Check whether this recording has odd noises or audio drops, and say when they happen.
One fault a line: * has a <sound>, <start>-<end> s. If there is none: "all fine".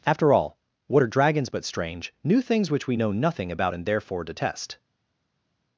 all fine